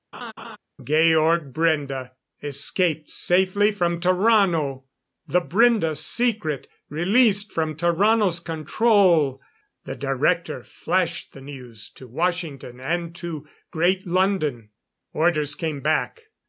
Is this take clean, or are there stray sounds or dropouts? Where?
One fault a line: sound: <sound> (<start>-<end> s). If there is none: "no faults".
sound: laugh (0.1-0.6 s)